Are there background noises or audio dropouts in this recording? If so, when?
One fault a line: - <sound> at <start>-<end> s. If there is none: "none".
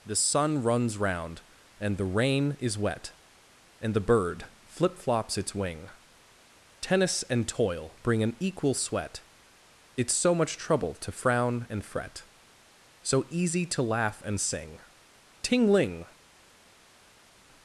none